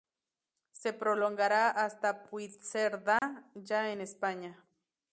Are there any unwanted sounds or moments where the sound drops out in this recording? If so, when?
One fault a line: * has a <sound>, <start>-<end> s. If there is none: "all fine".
* has a dropout, 3.2-3.2 s